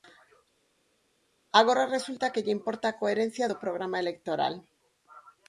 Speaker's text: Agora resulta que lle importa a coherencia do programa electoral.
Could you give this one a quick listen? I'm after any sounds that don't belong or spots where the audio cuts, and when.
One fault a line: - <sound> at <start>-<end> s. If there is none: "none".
none